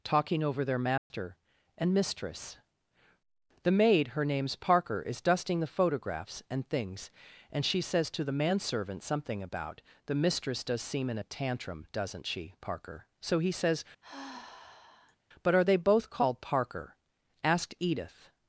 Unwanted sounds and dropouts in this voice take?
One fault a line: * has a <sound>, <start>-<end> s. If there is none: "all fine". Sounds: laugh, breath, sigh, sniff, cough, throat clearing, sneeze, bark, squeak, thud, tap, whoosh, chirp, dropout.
* has a dropout, 1.0-1.1 s
* has a sigh, 14.0-15.2 s